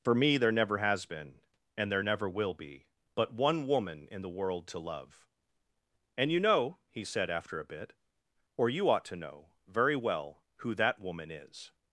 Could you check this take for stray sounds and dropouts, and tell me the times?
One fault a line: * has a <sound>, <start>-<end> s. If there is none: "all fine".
all fine